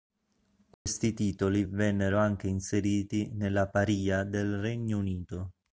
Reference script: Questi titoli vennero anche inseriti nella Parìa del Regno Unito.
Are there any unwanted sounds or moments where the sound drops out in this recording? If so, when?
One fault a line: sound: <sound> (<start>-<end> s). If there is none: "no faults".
sound: dropout (0.7-0.9 s)